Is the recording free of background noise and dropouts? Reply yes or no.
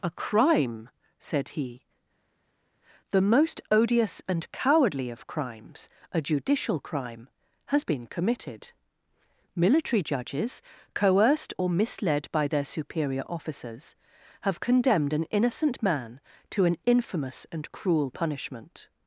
yes